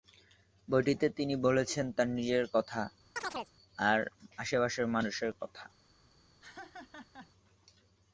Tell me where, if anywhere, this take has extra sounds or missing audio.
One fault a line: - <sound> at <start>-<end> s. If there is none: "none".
- chirp at 3.2-3.5 s
- laugh at 6.4-7.3 s